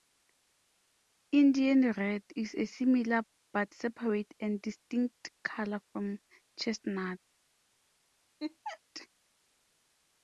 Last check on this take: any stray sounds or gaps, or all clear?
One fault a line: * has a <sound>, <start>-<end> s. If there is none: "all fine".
* has a laugh, 8.4-8.8 s